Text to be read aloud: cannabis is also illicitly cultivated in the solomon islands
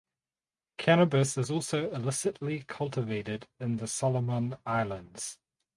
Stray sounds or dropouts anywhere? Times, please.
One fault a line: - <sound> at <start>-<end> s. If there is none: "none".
none